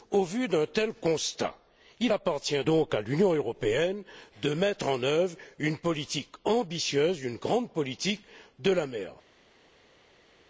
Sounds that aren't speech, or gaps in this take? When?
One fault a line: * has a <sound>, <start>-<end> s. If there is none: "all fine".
all fine